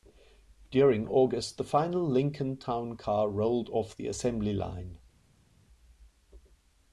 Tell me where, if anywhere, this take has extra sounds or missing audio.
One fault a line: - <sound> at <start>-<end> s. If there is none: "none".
none